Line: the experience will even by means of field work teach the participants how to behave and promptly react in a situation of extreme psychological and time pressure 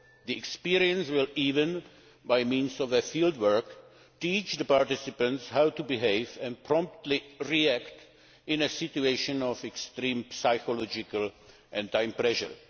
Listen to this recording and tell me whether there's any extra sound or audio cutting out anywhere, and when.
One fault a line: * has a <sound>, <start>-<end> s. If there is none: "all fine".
all fine